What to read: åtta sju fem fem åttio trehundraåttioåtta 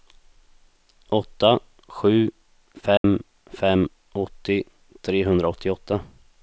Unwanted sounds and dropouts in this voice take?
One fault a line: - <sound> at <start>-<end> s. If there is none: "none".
- dropout at 3.0-3.0 s